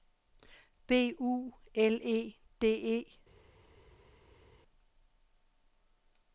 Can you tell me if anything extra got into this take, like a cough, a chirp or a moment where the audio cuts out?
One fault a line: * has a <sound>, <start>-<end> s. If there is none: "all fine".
all fine